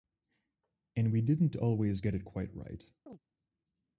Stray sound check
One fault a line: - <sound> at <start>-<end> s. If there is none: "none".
- chirp at 3.1-3.2 s